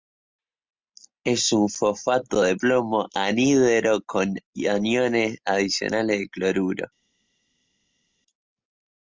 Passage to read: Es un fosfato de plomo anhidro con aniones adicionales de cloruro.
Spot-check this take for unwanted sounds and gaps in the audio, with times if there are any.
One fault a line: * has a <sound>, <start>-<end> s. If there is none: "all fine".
all fine